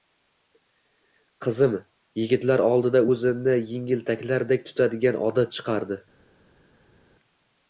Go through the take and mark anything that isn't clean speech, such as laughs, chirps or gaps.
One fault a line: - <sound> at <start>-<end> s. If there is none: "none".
none